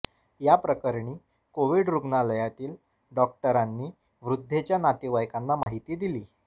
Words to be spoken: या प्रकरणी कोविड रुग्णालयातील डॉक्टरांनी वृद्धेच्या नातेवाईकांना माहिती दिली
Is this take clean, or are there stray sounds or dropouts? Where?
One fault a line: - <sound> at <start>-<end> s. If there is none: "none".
- dropout at 5.6-5.7 s